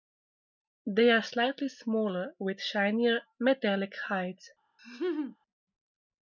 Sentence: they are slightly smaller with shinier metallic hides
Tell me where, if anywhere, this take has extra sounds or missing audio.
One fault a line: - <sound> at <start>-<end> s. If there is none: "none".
- laugh at 4.8-5.4 s